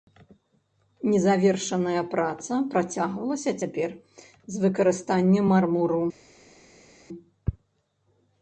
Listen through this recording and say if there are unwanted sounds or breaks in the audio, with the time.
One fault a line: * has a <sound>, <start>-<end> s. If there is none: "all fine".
all fine